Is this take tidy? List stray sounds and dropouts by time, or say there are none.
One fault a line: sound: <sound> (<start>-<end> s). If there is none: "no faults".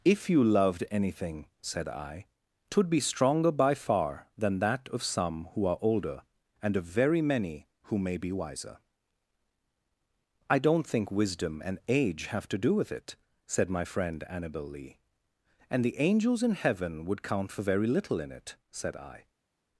no faults